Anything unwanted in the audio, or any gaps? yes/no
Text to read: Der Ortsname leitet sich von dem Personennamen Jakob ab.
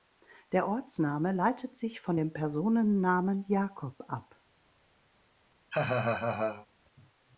yes